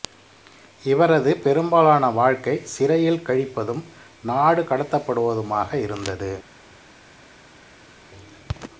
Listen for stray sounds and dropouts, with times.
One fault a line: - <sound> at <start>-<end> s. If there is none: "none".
none